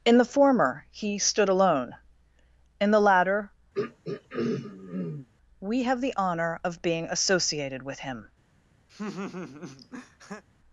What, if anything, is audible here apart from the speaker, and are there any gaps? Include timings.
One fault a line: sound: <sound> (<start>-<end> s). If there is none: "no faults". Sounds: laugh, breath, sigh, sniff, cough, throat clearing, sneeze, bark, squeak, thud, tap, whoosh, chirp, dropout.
sound: throat clearing (3.7-5.3 s)
sound: laugh (8.9-10.4 s)